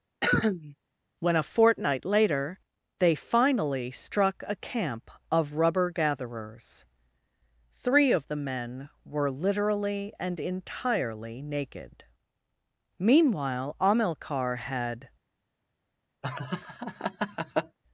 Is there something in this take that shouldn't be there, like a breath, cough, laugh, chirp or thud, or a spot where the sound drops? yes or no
yes